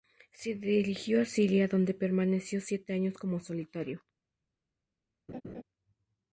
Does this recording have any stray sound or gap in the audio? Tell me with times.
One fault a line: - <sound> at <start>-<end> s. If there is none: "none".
- laugh at 5.3-5.6 s